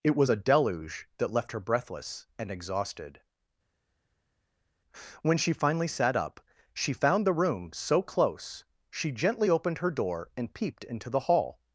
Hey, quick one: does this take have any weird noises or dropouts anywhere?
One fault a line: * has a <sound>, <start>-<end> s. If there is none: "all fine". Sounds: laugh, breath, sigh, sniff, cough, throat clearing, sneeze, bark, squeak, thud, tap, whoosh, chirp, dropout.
all fine